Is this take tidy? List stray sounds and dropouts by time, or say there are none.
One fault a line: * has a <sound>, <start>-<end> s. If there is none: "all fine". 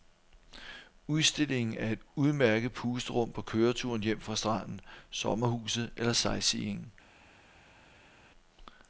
all fine